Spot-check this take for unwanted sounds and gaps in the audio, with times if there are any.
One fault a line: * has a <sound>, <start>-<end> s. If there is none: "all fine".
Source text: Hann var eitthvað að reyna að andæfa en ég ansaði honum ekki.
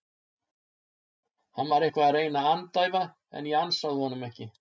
all fine